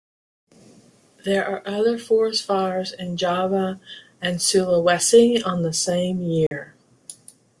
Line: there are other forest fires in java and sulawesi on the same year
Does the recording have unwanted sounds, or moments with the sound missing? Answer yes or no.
yes